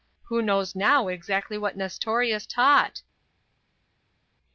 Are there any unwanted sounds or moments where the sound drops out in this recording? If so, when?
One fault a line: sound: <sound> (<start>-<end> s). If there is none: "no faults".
no faults